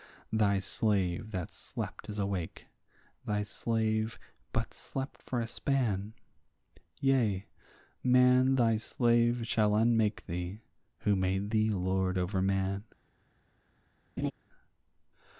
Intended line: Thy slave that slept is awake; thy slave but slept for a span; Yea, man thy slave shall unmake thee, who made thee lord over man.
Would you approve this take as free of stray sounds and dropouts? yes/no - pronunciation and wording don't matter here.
no